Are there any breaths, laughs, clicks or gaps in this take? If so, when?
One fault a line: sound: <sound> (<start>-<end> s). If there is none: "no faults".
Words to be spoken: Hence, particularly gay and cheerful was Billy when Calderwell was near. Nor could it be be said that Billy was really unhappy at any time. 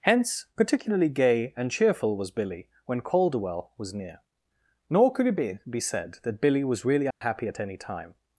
sound: dropout (7.1-7.2 s)